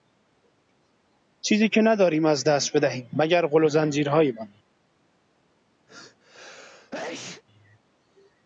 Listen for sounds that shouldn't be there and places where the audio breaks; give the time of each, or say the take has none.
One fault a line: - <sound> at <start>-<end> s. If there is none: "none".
- sneeze at 5.9-7.4 s